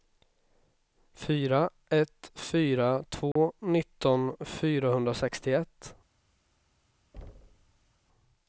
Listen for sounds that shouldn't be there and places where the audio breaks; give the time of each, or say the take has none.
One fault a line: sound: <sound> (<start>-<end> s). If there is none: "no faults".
sound: dropout (3.3-3.4 s)
sound: thud (7.1-7.9 s)